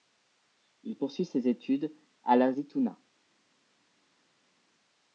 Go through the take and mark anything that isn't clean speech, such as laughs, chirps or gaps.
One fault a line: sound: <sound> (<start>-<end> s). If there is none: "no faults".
no faults